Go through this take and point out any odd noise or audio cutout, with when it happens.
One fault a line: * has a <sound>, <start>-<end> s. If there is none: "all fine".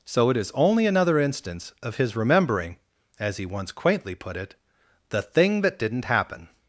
all fine